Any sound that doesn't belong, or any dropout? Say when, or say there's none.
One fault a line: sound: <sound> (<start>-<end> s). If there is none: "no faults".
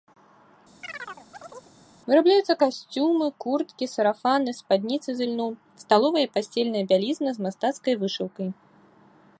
sound: chirp (0.8-1.7 s)